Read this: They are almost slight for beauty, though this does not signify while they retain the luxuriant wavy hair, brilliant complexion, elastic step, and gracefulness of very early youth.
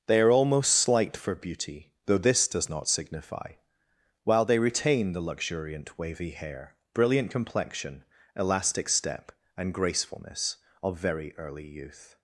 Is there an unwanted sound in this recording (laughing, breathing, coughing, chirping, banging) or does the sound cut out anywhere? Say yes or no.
no